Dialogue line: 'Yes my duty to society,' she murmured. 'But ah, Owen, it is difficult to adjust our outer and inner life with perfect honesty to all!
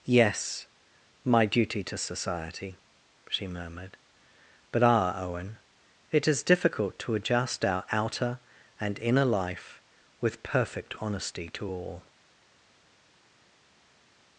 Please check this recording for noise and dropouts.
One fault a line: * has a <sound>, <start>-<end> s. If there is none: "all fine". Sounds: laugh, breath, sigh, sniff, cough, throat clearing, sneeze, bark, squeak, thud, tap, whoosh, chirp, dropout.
all fine